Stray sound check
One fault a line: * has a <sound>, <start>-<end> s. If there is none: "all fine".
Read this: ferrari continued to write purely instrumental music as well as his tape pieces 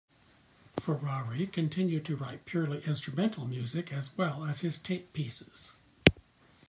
all fine